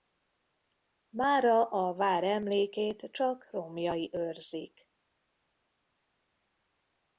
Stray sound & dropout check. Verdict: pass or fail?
pass